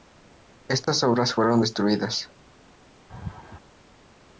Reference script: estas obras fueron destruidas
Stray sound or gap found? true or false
true